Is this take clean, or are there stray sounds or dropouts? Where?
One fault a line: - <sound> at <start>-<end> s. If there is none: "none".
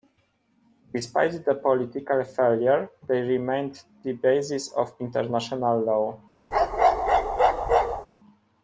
- bark at 6.5-8.1 s